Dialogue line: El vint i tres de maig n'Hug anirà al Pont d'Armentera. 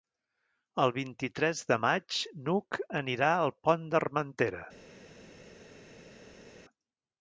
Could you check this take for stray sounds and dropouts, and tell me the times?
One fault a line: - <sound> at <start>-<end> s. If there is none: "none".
none